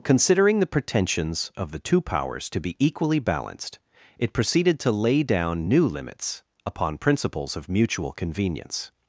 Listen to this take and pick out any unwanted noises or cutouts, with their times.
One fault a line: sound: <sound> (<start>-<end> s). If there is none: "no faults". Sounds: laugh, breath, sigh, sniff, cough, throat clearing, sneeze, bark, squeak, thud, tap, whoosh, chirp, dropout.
no faults